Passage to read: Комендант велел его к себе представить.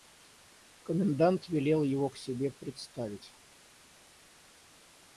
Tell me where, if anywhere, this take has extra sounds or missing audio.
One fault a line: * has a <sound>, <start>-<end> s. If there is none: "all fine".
all fine